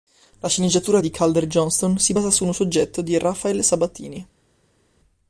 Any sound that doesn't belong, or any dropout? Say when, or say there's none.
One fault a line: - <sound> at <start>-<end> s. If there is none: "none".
none